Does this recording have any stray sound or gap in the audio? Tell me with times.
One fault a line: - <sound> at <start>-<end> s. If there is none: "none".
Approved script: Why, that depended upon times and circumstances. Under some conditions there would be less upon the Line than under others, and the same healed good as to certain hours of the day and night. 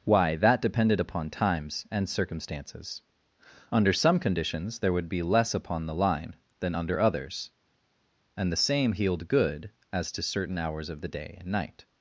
none